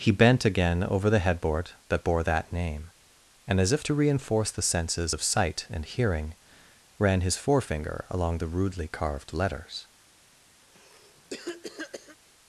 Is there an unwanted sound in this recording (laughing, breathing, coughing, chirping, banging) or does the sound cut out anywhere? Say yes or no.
yes